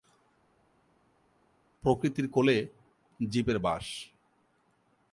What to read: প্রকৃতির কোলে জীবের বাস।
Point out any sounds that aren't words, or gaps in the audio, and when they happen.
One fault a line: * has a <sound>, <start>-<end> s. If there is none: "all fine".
all fine